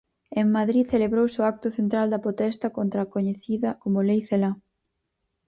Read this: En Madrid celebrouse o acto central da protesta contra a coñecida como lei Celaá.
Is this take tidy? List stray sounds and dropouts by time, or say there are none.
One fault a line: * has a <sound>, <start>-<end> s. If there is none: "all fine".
all fine